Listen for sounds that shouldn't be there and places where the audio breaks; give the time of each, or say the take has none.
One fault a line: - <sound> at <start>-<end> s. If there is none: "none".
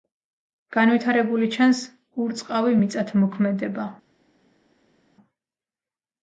none